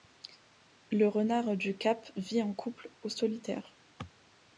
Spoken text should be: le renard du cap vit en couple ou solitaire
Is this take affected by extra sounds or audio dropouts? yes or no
no